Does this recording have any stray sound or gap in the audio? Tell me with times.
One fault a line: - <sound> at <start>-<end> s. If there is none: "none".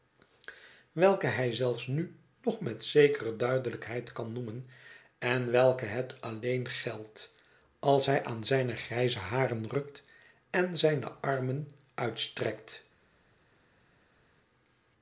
none